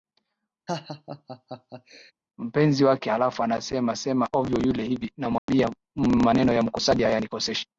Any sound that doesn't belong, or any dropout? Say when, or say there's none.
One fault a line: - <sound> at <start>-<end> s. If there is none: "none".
- laugh at 0.7-2.1 s
- dropout at 5.4-5.5 s